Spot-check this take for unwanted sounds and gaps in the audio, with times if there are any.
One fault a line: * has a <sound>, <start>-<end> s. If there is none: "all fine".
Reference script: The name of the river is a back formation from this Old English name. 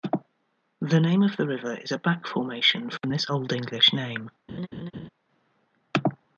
* has a laugh, 4.5-5.1 s